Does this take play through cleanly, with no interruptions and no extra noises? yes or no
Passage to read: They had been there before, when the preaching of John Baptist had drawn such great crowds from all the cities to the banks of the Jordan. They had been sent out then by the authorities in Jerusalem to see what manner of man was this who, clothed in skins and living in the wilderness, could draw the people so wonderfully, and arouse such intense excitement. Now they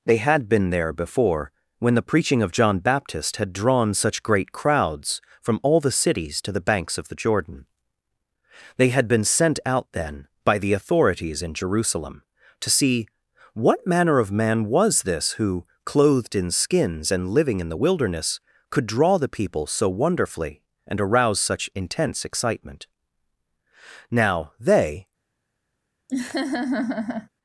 no